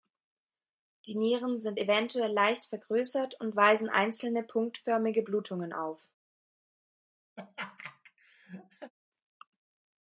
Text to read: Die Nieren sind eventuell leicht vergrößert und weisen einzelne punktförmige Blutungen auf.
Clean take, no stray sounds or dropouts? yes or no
no